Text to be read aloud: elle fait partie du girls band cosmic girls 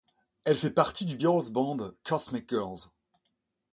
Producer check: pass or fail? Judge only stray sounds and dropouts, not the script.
pass